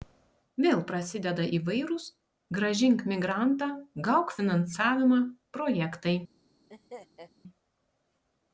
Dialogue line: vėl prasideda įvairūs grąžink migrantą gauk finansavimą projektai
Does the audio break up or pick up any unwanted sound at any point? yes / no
yes